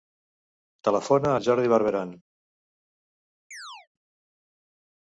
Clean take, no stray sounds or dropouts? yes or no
no